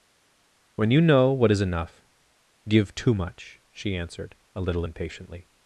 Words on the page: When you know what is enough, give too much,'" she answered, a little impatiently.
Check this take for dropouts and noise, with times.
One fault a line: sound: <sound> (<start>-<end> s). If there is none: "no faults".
no faults